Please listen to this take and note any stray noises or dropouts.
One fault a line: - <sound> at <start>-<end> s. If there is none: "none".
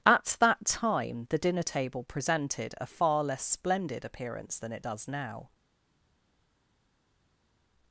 none